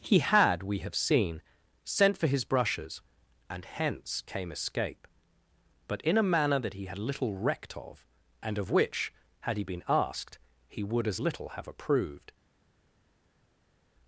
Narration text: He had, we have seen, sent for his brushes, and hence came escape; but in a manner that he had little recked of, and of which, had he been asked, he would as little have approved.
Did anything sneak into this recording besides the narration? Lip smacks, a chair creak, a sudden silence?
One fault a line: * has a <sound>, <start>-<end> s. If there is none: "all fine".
all fine